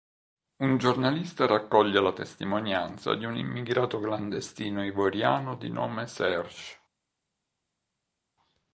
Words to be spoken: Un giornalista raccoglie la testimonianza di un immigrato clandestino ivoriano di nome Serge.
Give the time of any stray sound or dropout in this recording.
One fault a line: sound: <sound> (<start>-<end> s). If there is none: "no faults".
no faults